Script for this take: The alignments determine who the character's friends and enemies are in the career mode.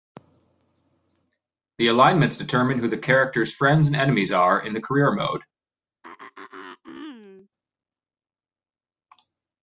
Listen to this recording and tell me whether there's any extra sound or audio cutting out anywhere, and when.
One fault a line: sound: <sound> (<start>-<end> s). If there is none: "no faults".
sound: throat clearing (6.0-7.5 s)